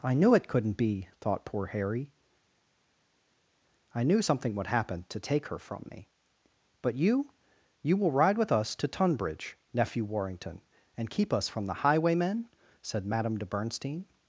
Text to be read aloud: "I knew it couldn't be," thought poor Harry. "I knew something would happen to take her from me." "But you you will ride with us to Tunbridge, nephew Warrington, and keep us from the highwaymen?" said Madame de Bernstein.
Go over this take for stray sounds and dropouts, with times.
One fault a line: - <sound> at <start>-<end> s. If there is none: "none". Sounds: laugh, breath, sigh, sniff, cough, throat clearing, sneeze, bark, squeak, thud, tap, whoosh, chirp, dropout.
none